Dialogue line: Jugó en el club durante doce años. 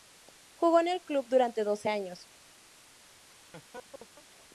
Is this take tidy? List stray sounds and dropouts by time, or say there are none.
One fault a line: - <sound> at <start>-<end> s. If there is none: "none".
- laugh at 3.3-4.3 s